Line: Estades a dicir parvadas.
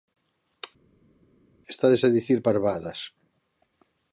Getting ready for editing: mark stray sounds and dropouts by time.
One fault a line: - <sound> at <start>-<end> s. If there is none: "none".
none